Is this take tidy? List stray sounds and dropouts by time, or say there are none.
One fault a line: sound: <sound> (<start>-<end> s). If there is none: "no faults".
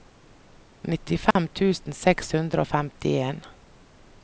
sound: dropout (1.3-1.4 s)